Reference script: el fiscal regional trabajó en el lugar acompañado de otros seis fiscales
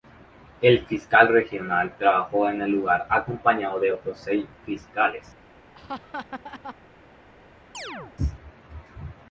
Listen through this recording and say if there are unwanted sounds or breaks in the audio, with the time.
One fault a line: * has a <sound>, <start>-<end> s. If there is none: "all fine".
* has a laugh, 5.7-6.8 s
* has a chirp, 7.7-8.2 s